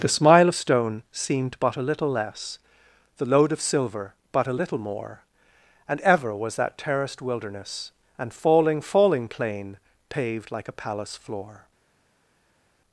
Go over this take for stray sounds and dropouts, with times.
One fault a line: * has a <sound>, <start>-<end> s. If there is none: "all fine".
all fine